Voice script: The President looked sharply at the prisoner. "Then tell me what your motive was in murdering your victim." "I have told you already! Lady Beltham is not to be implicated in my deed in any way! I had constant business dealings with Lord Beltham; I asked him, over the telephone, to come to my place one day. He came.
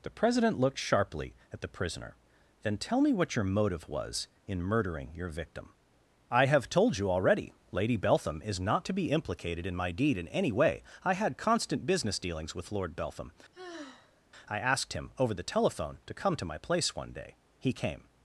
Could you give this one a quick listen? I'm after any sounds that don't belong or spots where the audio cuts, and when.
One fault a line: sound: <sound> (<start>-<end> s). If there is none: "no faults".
sound: sigh (13.5-14.2 s)